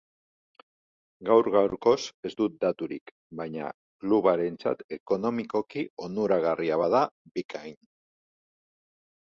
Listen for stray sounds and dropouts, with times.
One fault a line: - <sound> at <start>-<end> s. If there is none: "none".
none